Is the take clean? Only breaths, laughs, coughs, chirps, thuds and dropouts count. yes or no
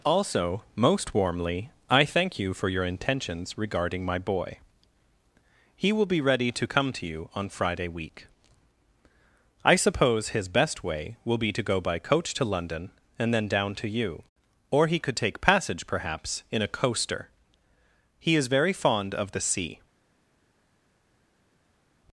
yes